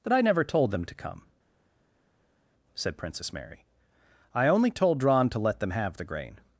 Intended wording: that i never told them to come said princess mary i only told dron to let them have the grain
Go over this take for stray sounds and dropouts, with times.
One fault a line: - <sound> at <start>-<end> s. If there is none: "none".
none